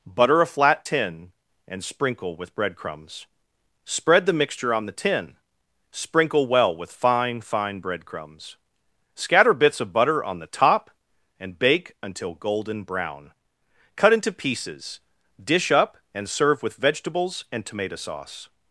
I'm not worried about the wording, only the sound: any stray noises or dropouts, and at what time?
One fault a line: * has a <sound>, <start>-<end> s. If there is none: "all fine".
all fine